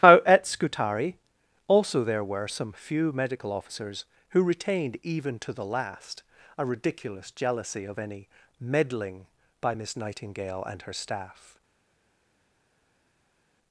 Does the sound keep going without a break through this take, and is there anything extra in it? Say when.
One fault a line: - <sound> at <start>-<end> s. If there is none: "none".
none